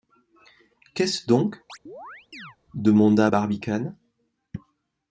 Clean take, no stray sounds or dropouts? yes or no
no